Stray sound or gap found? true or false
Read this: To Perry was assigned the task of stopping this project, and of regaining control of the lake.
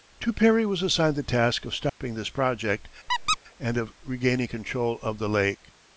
true